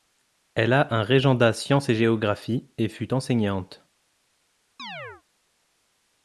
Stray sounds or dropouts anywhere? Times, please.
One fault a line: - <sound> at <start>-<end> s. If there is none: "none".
- chirp at 4.8-5.2 s